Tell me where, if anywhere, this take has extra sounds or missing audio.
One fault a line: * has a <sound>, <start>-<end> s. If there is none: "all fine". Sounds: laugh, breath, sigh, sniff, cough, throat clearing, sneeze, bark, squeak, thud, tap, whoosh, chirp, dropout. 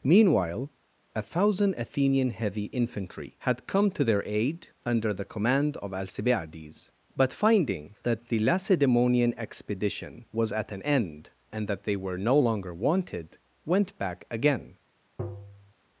* has a tap, 15.2-15.7 s